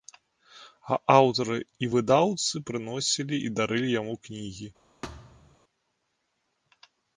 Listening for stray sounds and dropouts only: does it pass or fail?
fail